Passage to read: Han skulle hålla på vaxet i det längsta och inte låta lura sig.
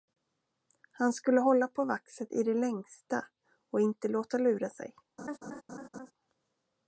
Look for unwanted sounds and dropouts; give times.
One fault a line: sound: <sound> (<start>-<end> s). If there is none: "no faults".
sound: laugh (5.2-6.1 s)